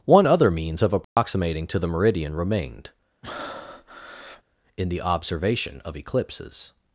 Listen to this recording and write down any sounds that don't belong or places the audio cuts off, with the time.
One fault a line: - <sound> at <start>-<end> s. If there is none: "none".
- dropout at 1.0-1.2 s
- breath at 3.2-4.4 s